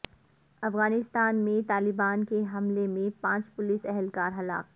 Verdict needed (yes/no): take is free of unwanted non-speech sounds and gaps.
yes